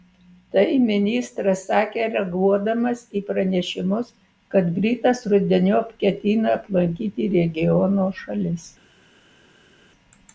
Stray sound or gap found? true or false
false